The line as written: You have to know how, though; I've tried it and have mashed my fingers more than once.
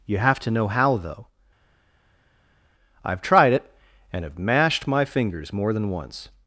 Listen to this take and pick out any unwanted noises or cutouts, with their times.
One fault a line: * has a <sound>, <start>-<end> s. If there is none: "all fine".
all fine